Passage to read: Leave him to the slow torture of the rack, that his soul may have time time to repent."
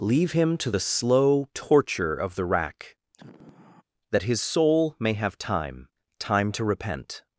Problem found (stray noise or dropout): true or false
true